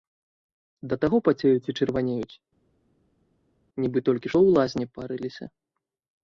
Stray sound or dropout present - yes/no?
no